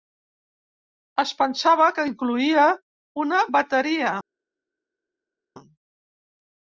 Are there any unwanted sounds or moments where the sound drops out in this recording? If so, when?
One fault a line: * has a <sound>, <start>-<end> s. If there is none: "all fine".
all fine